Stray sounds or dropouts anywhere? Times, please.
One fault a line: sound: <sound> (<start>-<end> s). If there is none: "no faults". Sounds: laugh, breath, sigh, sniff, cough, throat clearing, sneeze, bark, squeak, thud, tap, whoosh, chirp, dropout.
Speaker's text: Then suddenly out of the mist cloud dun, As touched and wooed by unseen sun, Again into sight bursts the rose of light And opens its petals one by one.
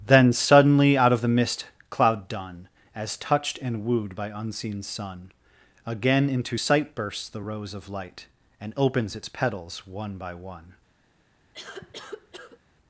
sound: cough (11.5-12.6 s)